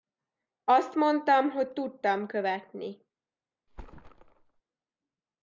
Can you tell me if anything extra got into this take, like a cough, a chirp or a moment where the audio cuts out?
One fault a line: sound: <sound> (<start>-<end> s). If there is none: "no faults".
sound: thud (3.7-4.6 s)